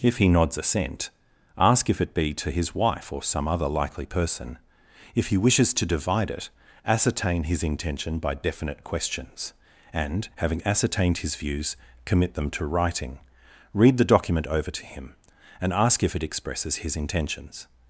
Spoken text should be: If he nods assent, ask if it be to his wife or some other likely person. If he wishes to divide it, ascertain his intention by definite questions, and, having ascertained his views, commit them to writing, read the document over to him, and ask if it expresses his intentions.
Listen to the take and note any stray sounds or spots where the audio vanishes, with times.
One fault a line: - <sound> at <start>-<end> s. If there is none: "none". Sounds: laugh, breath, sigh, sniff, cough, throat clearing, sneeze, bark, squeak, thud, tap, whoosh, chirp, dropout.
none